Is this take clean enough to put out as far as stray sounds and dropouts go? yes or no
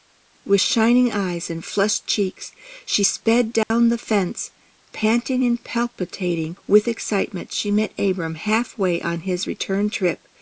no